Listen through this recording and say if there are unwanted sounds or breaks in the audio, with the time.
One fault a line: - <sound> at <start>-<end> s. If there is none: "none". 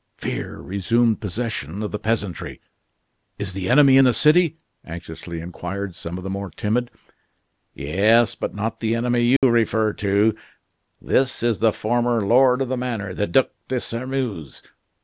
- dropout at 9.4-9.4 s